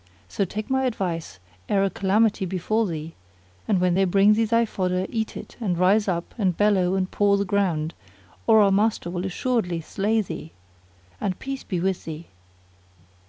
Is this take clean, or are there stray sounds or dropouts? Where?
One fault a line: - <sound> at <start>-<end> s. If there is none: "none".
none